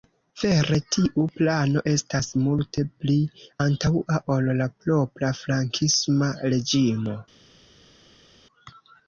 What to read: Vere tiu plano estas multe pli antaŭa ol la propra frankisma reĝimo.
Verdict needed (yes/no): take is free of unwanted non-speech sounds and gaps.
yes